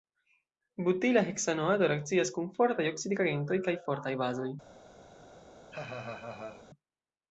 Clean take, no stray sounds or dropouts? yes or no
no